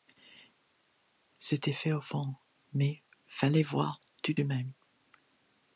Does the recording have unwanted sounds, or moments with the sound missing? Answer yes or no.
no